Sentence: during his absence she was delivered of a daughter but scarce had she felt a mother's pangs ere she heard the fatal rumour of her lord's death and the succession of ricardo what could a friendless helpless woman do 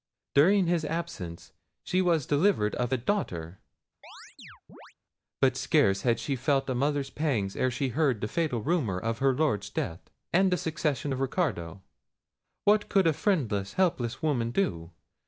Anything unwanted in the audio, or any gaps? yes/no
yes